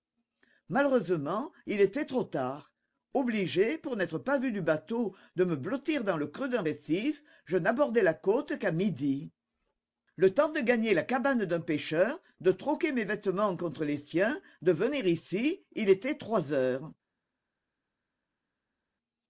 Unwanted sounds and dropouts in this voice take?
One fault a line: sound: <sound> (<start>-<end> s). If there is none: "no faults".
no faults